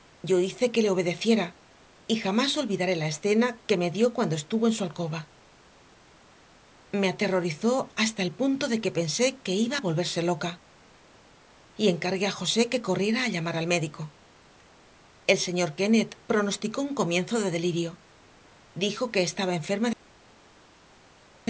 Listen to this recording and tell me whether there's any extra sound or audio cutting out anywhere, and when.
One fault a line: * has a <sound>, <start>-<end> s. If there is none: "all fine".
all fine